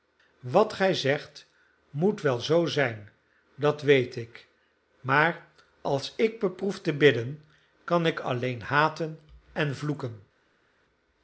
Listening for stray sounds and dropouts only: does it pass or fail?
pass